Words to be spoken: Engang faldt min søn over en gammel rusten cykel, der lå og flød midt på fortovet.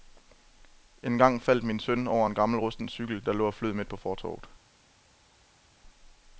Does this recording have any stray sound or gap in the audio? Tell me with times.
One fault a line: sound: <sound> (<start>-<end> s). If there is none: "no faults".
no faults